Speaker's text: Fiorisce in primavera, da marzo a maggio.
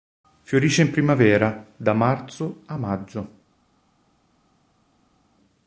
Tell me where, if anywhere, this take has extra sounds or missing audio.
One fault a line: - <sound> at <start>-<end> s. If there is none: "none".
none